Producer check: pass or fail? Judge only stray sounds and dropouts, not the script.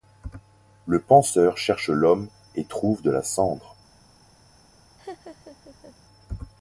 fail